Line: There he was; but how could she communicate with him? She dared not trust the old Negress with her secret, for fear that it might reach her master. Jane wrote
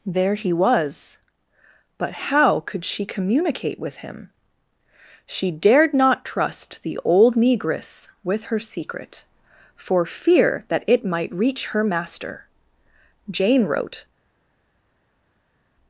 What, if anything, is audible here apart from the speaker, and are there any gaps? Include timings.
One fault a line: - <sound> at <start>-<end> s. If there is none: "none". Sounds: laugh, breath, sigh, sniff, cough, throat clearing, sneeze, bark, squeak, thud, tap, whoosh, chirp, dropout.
none